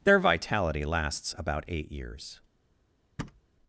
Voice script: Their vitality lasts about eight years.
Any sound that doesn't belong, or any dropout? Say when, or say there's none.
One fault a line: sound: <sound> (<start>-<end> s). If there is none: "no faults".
sound: thud (3.2-3.4 s)